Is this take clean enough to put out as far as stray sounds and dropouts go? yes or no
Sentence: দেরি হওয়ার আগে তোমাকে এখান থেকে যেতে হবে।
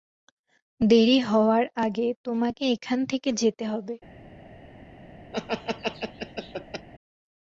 no